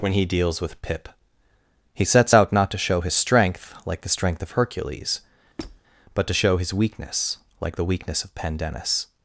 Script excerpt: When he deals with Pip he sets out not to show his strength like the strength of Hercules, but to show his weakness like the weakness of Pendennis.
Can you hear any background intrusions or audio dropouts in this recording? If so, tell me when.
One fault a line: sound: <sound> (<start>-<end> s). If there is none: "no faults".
sound: squeak (5.6-5.8 s)